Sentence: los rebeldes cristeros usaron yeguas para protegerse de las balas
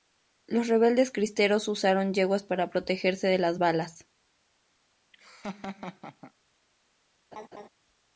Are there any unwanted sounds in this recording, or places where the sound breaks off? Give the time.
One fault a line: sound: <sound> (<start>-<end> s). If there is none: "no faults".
sound: laugh (5.1-6.3 s)
sound: laugh (7.3-7.7 s)